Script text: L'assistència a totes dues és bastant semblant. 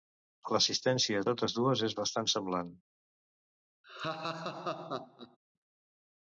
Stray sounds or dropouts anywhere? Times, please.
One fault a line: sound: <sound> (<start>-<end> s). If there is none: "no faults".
sound: laugh (3.8-5.4 s)